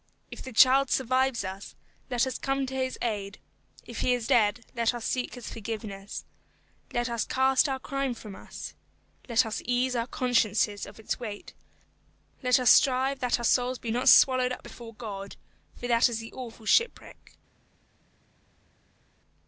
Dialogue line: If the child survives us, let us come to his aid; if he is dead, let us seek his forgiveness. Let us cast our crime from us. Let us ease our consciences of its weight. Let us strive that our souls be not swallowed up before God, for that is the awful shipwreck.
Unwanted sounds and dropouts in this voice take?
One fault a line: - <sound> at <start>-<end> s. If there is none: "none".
none